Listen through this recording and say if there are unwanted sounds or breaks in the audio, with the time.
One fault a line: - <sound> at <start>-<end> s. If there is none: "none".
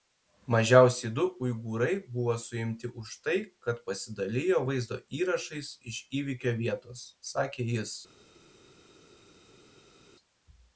none